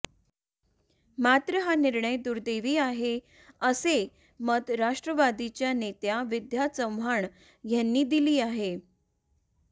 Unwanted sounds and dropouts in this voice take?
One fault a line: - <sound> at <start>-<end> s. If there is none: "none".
none